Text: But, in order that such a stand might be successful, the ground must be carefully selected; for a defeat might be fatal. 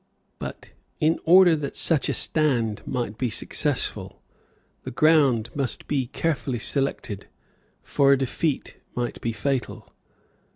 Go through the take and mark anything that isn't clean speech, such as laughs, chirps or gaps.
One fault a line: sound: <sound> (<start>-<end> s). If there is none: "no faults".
no faults